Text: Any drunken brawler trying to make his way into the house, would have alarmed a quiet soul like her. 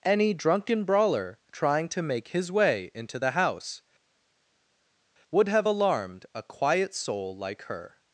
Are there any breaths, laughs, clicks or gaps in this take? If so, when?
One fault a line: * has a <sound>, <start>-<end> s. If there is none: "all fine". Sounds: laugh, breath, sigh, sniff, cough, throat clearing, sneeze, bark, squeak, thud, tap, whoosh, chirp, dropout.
all fine